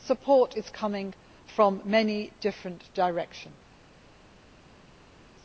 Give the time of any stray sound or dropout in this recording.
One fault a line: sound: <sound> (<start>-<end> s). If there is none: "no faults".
no faults